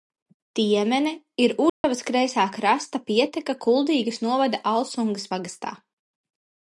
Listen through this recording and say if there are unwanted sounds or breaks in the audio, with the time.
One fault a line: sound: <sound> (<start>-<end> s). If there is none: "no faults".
sound: dropout (1.7-1.8 s)